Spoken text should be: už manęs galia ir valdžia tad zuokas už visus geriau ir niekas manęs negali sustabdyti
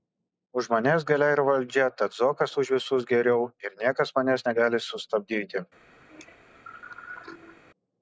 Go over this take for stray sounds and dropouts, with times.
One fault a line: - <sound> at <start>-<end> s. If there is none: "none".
- cough at 6.1-7.6 s